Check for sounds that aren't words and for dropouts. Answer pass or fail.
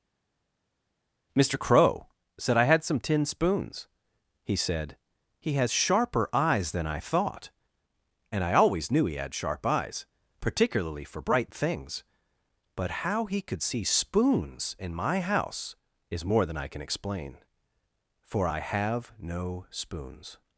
pass